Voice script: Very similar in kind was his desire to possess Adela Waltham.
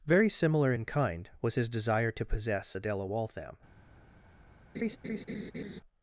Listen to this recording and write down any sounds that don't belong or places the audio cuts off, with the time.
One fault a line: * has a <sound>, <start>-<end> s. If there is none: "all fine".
* has a laugh, 4.7-5.8 s